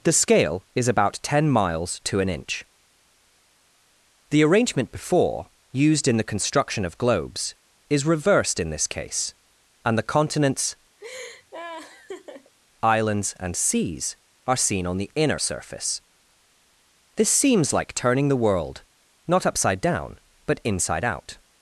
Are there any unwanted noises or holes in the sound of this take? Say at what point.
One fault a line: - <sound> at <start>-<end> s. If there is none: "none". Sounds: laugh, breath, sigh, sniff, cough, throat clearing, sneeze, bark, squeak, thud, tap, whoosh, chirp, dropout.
- laugh at 11.0-12.5 s